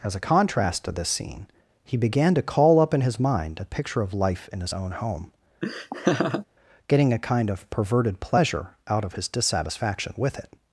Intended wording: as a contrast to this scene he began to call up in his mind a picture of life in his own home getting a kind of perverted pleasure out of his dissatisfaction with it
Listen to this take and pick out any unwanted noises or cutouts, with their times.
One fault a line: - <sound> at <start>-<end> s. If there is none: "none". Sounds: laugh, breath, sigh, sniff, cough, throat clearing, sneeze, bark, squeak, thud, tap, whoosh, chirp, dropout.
- laugh at 5.6-6.5 s